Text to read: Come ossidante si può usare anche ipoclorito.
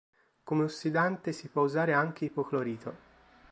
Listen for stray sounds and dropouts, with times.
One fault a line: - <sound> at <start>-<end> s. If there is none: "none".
none